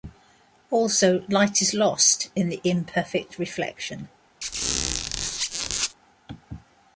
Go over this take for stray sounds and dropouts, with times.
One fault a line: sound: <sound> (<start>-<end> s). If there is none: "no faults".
sound: squeak (4.4-5.9 s)